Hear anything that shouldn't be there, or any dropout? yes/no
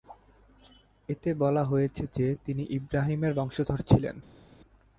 no